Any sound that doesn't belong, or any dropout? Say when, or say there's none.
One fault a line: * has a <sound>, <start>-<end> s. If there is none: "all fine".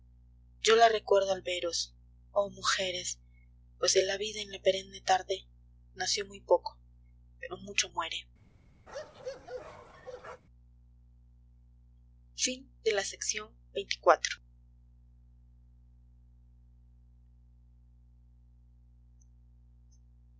* has a bark, 8.9-10.4 s